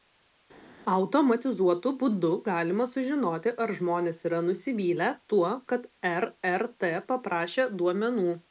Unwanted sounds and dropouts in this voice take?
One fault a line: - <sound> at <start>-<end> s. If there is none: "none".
none